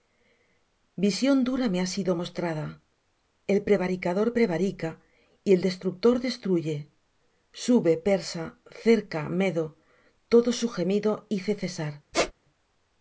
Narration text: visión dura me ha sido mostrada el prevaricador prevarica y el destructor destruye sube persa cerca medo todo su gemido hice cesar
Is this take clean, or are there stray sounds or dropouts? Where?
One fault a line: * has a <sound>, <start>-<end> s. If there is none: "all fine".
* has a squeak, 12.1-12.3 s